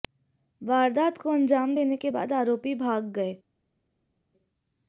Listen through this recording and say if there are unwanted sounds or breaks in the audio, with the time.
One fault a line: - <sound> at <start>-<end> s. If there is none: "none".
none